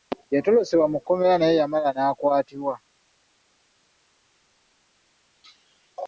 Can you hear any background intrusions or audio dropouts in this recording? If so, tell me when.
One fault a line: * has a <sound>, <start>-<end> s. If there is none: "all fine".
all fine